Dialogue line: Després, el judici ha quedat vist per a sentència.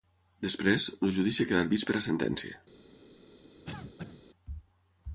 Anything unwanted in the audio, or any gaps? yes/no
yes